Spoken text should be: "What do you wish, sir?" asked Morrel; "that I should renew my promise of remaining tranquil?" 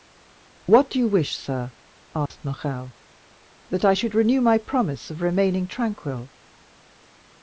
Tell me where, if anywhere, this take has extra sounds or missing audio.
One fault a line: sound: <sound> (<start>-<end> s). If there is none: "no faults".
sound: dropout (2.3-2.3 s)